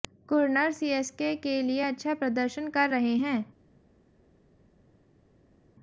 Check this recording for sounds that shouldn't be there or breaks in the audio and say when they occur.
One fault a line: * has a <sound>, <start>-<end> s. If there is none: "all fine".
all fine